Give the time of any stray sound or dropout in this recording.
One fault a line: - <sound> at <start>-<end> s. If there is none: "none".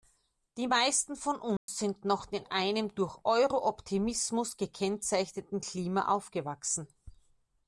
- dropout at 1.6-1.7 s